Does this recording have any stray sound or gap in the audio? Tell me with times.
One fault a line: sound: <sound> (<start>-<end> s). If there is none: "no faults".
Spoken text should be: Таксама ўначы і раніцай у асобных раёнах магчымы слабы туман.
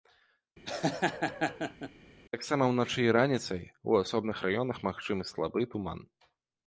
sound: laugh (0.7-1.9 s)